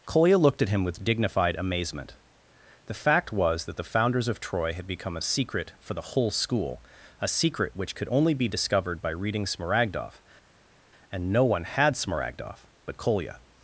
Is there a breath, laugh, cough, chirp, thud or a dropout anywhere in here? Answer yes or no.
no